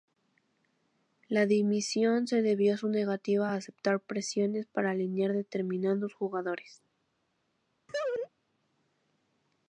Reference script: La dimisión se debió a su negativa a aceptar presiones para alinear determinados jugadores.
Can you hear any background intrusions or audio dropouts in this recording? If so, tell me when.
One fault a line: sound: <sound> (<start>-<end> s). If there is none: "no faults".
sound: laugh (7.9-8.3 s)